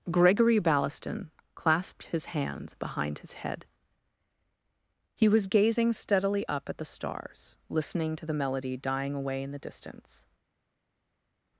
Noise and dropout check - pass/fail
pass